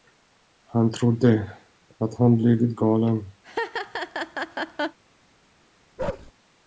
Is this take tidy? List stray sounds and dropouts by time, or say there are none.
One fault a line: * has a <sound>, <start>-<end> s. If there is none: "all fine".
* has a laugh, 3.4-5.0 s
* has a bark, 6.0-6.3 s